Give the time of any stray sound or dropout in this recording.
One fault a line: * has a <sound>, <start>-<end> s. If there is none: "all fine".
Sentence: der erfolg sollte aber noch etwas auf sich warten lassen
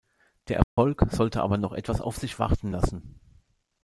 * has a dropout, 0.6-0.8 s